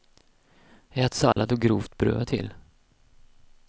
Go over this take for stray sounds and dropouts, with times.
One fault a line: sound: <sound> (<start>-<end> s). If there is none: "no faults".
sound: dropout (1.3-1.4 s)